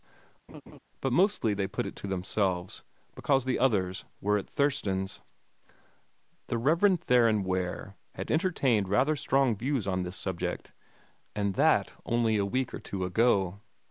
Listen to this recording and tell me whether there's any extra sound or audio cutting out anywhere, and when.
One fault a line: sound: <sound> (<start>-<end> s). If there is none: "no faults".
sound: laugh (0.5-0.8 s)